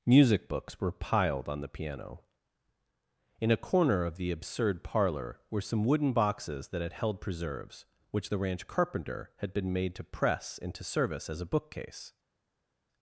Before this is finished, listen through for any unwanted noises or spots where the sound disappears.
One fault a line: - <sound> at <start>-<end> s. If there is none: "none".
none